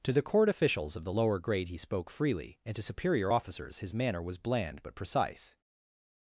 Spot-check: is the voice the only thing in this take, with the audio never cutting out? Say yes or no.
yes